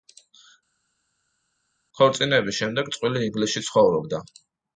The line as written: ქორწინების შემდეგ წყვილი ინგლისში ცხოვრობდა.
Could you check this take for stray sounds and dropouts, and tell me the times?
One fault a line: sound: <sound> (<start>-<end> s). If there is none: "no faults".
no faults